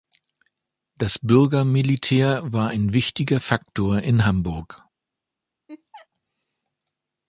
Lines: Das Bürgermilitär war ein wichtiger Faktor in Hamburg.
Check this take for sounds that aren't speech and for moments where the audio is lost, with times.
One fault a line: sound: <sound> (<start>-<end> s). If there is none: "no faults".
sound: laugh (5.7-6.1 s)